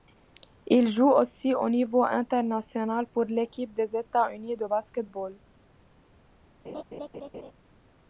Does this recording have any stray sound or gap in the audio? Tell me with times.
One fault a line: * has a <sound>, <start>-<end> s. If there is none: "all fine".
* has a laugh, 6.6-7.5 s